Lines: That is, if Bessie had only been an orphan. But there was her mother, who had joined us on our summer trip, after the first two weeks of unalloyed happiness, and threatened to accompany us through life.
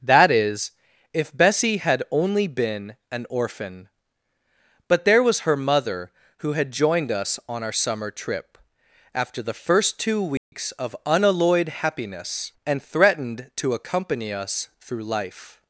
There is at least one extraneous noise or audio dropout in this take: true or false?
true